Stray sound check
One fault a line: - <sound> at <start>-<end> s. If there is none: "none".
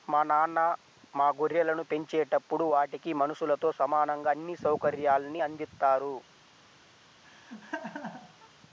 - laugh at 7.2-8.5 s